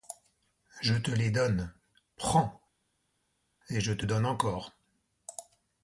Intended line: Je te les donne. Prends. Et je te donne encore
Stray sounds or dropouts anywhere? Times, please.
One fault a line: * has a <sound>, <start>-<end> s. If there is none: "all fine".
all fine